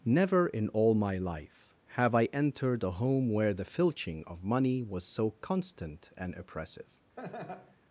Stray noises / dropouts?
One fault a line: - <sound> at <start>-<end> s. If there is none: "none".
- laugh at 7.2-7.8 s